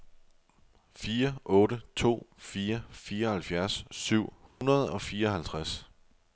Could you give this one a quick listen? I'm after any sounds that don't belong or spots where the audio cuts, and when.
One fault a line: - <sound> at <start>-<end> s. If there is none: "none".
- dropout at 4.5-4.6 s